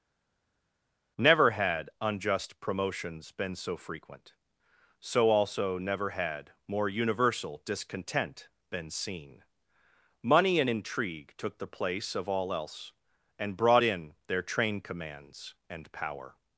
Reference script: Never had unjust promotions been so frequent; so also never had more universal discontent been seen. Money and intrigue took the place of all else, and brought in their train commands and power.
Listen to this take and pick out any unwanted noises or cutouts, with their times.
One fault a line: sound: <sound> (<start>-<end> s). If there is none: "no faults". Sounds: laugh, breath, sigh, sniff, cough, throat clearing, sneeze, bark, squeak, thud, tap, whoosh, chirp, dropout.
no faults